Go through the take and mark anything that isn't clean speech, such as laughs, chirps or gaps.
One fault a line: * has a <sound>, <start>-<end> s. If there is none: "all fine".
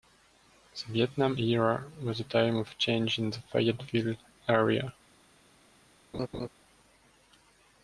* has a laugh, 6.1-6.5 s